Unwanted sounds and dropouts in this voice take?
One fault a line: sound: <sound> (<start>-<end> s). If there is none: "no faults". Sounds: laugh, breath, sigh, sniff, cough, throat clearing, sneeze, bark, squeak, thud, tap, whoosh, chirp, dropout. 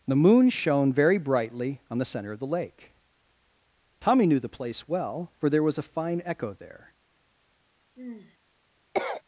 sound: sigh (7.9-8.4 s)
sound: cough (8.9-9.2 s)